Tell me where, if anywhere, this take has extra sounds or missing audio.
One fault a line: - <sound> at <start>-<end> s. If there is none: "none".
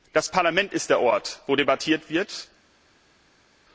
none